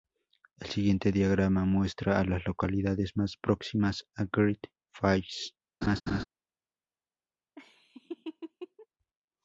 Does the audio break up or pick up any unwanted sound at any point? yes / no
yes